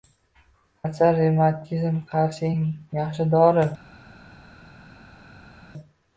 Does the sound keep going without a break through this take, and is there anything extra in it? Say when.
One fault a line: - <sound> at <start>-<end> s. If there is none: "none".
none